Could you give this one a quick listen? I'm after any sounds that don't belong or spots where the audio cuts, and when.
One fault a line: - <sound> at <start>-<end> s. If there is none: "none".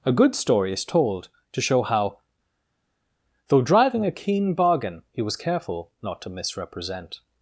none